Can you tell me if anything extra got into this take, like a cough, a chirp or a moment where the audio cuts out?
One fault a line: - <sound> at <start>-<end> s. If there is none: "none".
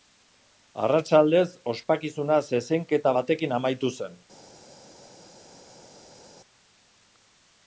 none